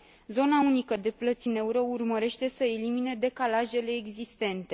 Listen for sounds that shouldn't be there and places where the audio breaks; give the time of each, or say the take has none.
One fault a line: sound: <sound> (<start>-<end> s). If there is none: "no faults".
no faults